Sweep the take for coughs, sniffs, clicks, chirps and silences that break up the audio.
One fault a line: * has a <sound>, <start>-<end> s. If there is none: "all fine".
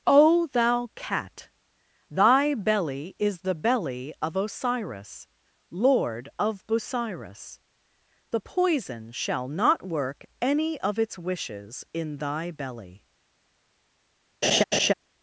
* has a laugh, 14.4-14.9 s